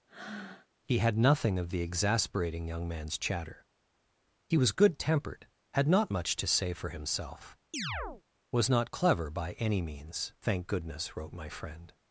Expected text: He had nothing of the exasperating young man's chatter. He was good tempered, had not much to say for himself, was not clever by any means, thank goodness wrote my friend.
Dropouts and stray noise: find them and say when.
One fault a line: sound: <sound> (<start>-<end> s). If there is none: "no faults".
sound: breath (0.1-0.7 s)
sound: chirp (7.7-8.2 s)